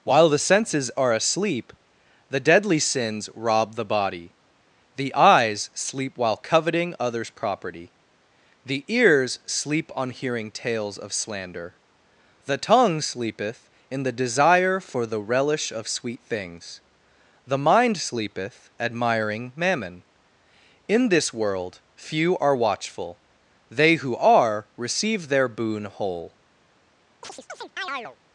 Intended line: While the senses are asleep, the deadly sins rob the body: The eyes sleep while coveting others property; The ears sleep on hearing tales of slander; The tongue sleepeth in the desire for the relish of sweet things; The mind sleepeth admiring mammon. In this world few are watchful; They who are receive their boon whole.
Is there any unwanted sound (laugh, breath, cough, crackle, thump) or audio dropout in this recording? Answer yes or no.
yes